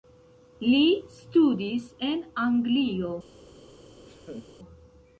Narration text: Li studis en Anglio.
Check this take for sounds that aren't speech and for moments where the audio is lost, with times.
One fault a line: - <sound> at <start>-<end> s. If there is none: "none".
- laugh at 4.0-4.5 s